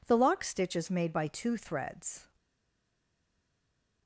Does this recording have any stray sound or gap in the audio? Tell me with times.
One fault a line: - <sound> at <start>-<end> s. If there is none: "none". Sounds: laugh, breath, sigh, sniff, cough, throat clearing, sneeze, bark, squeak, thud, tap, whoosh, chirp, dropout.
none